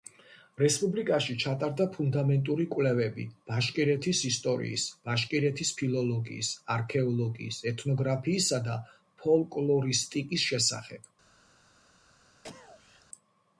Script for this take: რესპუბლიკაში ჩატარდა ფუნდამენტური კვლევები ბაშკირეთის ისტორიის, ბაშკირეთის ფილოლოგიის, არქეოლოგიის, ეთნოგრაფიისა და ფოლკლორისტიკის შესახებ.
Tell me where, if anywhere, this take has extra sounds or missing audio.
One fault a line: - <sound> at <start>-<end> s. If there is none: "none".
- cough at 12.4-13.1 s